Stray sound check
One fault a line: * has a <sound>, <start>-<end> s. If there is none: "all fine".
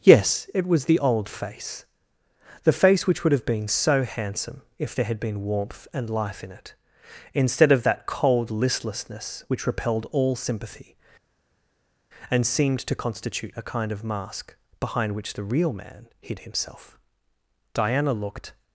all fine